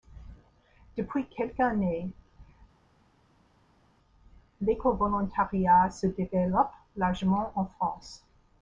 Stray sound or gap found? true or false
false